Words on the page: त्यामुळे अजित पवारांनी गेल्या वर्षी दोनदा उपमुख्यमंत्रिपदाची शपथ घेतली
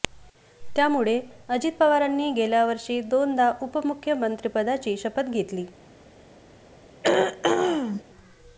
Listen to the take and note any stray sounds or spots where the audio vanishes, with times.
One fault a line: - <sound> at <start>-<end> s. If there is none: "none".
- throat clearing at 7.0-8.0 s